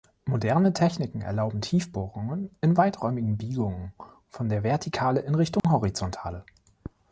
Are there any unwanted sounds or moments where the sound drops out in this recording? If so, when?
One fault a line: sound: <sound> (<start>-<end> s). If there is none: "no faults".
sound: dropout (5.6-5.6 s)